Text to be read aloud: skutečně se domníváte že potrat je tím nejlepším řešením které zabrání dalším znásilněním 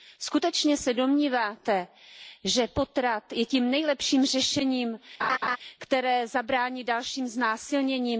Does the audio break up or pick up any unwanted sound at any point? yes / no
yes